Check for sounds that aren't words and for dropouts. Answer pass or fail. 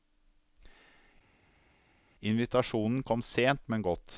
pass